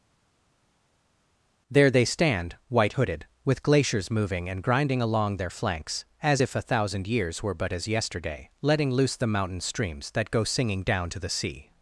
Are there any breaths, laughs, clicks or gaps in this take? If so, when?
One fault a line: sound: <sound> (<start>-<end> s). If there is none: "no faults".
no faults